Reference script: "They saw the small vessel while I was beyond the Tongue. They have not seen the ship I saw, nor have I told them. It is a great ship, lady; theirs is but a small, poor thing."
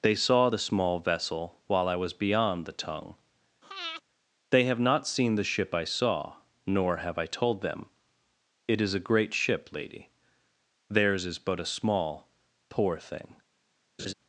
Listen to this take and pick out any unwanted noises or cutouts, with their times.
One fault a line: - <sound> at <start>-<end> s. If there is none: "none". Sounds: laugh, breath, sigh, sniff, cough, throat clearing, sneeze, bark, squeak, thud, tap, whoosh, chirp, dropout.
- breath at 3.6-4.0 s
- laugh at 14.0-14.1 s